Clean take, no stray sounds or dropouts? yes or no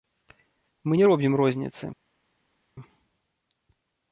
yes